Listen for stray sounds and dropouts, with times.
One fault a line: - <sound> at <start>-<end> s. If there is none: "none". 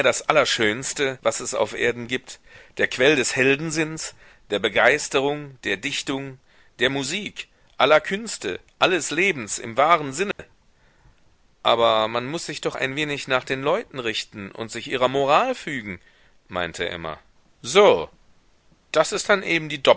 - dropout at 10.3-10.4 s